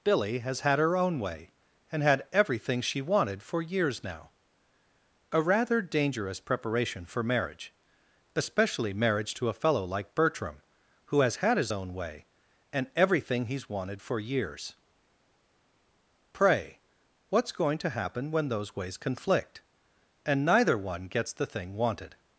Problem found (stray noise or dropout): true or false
false